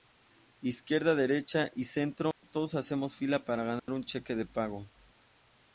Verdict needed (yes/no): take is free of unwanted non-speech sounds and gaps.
no